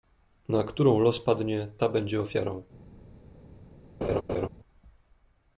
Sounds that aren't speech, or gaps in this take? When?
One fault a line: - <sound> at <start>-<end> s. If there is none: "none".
- laugh at 4.0-4.5 s